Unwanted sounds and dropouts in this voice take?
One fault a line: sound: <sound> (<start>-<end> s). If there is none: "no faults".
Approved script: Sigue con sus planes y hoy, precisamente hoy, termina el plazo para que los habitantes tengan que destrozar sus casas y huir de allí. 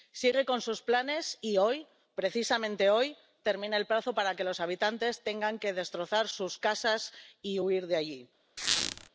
sound: squeak (8.6-9.1 s)